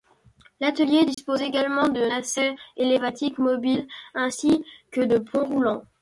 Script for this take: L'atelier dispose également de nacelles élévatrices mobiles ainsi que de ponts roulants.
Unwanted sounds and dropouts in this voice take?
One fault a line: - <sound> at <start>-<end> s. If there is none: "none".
- dropout at 1.1-1.2 s